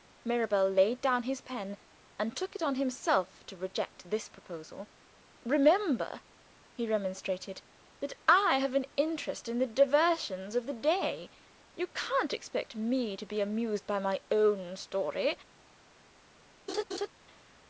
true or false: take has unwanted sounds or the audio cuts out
true